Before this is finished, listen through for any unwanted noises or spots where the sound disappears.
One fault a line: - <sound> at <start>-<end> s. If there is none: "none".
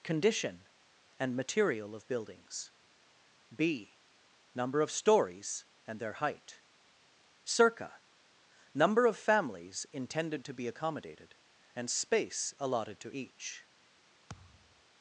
- thud at 14.3-14.8 s